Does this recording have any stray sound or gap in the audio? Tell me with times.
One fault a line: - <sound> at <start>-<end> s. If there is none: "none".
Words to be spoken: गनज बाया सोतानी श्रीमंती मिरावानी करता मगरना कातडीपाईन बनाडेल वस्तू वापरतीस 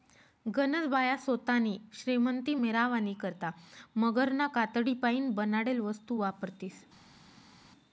none